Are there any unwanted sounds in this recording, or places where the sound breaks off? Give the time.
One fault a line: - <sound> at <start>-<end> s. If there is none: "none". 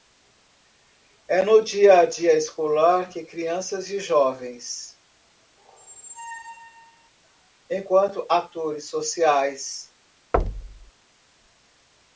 - squeak at 5.6-7.1 s
- thud at 10.3-10.9 s